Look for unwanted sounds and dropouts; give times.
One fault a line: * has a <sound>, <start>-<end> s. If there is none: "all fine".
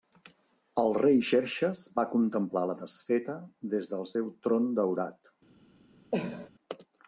* has a cough, 6.1-6.5 s